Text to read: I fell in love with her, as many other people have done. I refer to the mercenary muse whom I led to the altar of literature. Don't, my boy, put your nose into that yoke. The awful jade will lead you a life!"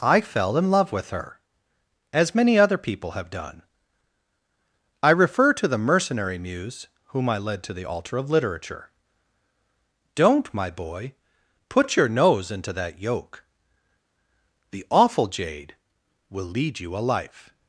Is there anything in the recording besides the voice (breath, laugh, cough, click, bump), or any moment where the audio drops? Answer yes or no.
no